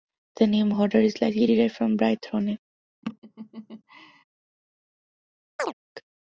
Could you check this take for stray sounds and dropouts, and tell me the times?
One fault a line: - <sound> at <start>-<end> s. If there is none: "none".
- laugh at 3.0-4.2 s
- chirp at 5.6-5.7 s